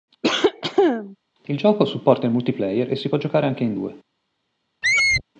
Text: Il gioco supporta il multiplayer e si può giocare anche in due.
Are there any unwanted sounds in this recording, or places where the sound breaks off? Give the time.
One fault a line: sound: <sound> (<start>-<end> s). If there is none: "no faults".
sound: cough (0.2-1.2 s)
sound: squeak (4.8-5.2 s)